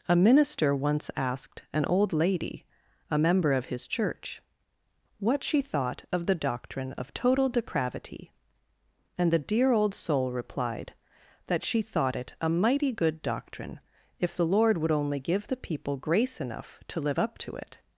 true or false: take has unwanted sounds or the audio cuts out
false